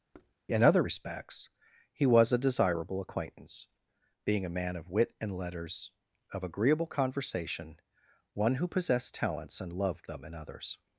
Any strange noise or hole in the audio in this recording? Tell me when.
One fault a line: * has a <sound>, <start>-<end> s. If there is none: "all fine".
* has a thud, 0.1-0.4 s